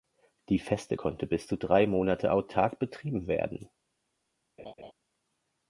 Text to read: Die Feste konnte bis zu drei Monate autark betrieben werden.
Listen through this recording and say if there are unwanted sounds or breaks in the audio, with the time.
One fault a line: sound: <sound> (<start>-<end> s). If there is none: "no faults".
sound: laugh (4.6-4.9 s)